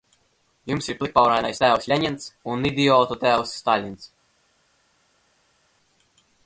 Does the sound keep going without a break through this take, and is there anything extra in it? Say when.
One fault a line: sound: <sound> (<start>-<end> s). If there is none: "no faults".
no faults